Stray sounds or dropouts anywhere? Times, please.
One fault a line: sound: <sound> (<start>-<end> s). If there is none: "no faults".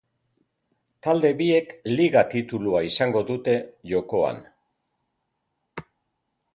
no faults